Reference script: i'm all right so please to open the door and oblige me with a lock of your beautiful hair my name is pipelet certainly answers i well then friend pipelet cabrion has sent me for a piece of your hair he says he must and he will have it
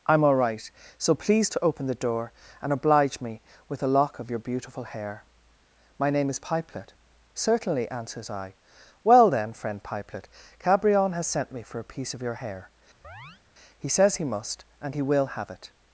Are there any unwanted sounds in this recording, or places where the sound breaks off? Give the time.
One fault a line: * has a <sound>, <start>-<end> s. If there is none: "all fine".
* has a chirp, 13.0-13.4 s